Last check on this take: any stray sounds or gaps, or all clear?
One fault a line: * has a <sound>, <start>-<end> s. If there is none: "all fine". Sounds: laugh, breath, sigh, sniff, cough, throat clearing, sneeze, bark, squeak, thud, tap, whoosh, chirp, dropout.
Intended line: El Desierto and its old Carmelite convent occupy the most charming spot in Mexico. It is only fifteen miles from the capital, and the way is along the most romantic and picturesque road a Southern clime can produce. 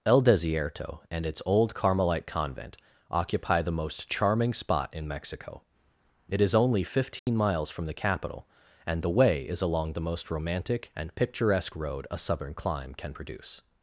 * has a dropout, 7.2-7.3 s